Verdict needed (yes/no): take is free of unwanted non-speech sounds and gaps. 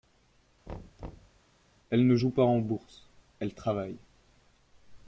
no